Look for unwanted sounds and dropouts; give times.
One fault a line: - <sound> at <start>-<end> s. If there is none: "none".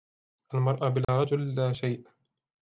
- dropout at 1.0-1.1 s